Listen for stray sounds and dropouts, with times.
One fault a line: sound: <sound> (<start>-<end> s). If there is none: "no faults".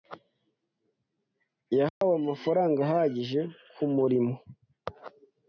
sound: dropout (1.9-2.0 s)